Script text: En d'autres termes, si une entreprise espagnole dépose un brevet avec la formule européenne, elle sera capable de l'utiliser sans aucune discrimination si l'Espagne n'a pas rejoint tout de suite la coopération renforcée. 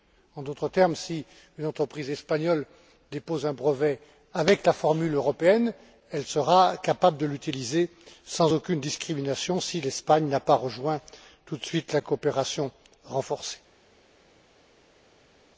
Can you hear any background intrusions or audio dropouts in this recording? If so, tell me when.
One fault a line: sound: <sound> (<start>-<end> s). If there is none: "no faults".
no faults